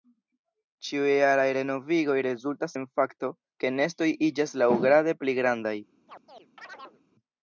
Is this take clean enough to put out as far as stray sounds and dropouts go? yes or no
no